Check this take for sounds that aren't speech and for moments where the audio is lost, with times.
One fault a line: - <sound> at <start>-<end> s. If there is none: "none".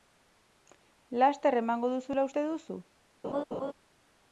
- laugh at 3.2-3.7 s